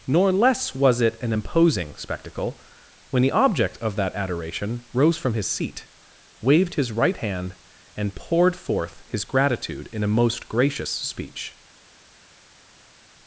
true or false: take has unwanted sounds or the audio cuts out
false